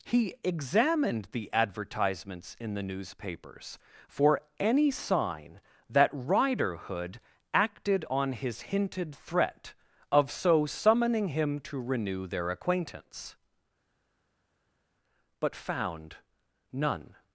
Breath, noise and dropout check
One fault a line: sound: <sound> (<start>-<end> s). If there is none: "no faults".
no faults